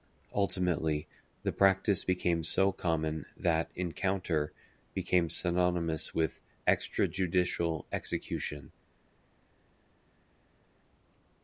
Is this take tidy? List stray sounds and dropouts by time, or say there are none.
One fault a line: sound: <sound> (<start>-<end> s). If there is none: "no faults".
no faults